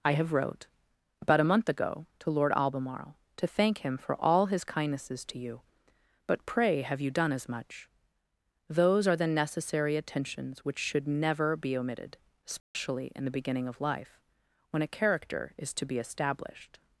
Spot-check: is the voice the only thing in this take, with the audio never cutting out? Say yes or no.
no